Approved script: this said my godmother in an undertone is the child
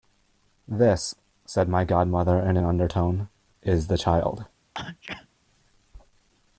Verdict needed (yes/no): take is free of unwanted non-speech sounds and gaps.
no